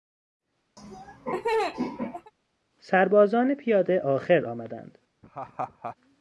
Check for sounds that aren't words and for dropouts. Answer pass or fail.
fail